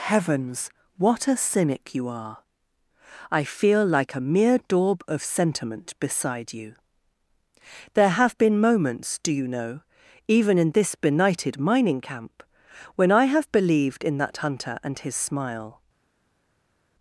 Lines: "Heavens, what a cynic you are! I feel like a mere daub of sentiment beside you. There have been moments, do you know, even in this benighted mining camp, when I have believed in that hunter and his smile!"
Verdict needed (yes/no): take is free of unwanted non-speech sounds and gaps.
yes